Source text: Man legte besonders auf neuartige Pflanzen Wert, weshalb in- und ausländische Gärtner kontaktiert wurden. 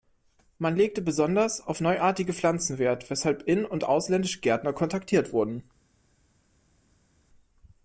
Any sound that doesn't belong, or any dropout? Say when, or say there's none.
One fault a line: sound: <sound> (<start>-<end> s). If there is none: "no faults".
no faults